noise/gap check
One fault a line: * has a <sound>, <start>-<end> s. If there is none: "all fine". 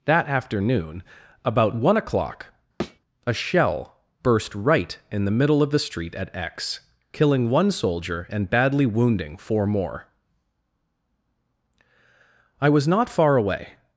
* has a thud, 2.8-3.0 s